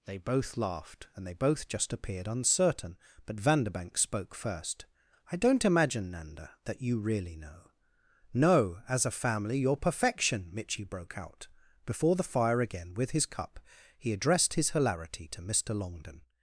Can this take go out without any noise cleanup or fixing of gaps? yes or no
yes